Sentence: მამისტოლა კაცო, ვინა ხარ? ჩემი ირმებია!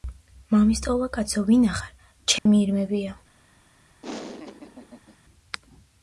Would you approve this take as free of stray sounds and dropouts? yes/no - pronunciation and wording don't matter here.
no